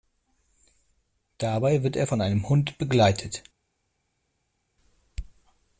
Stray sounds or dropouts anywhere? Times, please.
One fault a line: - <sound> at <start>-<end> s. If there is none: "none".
none